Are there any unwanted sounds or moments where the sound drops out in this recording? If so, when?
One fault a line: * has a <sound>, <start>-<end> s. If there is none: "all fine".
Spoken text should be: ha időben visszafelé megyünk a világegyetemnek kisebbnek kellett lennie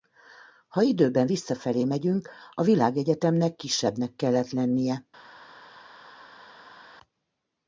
all fine